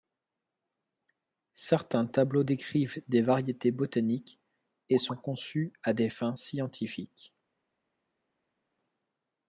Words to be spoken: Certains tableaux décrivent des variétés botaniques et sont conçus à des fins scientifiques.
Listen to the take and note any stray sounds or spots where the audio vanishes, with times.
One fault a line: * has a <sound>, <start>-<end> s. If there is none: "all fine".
all fine